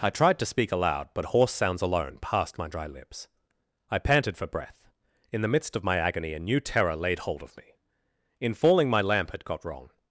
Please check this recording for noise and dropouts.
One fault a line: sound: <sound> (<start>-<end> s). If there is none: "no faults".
no faults